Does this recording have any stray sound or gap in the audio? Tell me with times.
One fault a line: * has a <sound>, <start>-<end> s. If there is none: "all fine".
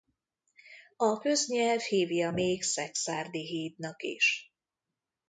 all fine